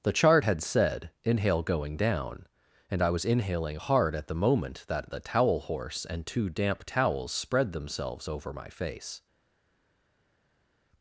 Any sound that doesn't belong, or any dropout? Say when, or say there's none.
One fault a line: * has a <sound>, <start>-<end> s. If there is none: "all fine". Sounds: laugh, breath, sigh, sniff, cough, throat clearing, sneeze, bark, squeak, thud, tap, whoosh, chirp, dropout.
all fine